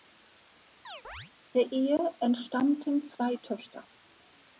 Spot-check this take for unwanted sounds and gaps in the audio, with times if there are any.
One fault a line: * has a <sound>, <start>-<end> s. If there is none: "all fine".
* has a chirp, 0.8-1.3 s